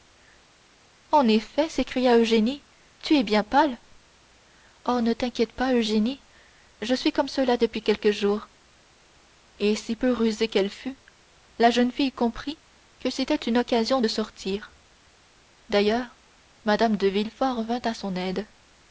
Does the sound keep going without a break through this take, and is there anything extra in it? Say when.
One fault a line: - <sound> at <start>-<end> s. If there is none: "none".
none